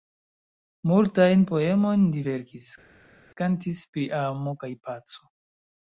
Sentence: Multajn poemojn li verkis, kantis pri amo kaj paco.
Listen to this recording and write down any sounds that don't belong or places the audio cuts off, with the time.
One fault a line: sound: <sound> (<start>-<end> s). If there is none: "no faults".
no faults